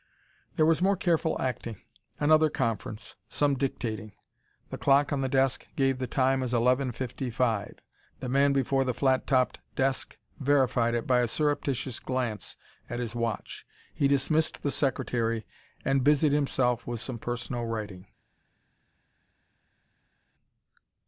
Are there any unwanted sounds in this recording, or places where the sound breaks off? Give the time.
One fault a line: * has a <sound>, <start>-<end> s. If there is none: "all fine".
all fine